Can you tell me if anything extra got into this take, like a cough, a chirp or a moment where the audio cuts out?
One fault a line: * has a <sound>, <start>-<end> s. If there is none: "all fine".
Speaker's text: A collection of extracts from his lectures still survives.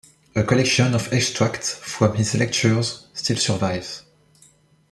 all fine